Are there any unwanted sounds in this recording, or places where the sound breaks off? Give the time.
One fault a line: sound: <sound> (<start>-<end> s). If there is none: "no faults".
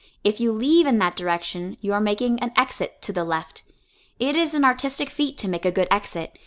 no faults